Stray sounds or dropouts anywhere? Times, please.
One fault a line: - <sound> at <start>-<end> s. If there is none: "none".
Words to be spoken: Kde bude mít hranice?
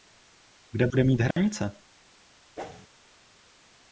- dropout at 1.3-1.4 s
- whoosh at 2.6-2.9 s